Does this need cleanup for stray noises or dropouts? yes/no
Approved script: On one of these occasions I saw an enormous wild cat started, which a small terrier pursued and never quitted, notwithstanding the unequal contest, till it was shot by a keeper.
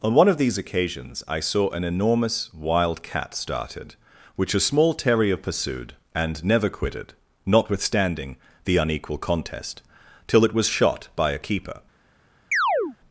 yes